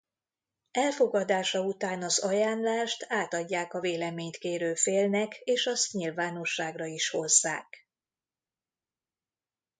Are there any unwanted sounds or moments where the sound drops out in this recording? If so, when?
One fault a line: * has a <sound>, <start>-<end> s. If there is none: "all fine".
all fine